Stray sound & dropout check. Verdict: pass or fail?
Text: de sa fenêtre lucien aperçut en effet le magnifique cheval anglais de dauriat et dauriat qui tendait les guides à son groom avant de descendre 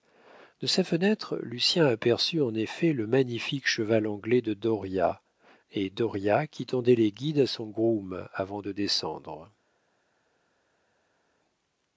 pass